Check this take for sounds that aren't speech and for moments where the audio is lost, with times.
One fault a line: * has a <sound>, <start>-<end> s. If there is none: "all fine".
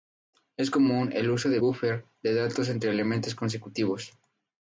all fine